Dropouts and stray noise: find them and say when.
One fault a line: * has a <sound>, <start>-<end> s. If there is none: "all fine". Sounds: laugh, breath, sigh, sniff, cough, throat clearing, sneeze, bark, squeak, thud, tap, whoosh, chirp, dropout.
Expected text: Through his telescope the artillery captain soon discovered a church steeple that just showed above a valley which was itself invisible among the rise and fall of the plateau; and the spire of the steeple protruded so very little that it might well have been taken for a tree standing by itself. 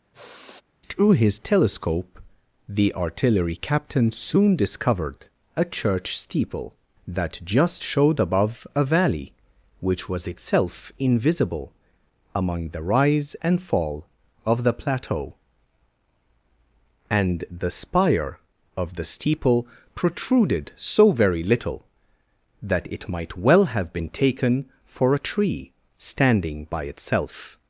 * has a sigh, 0.1-0.6 s